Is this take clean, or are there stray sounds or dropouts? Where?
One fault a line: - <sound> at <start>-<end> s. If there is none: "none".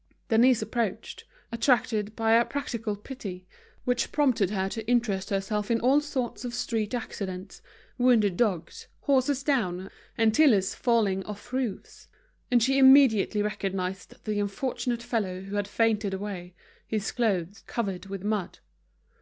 none